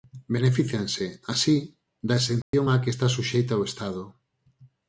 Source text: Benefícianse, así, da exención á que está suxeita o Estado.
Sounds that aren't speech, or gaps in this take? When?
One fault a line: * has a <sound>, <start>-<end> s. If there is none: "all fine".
* has a dropout, 2.4-2.5 s